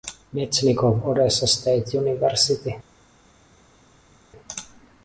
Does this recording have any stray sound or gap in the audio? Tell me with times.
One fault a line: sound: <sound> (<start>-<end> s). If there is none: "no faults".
no faults